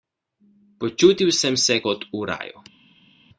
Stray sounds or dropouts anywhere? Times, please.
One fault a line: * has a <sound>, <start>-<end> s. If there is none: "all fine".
all fine